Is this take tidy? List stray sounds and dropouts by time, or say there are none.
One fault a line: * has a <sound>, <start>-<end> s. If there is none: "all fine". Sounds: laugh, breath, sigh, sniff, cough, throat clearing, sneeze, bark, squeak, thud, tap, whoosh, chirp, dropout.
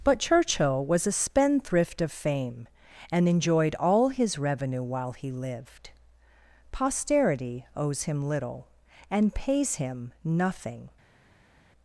all fine